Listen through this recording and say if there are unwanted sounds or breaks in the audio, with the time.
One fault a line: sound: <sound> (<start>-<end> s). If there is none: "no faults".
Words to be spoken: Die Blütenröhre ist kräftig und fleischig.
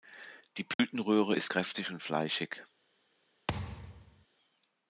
sound: dropout (0.7-0.8 s)
sound: thud (3.5-4.3 s)